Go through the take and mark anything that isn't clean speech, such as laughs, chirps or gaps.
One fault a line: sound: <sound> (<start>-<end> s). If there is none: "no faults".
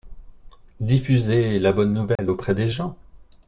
sound: dropout (2.2-2.2 s)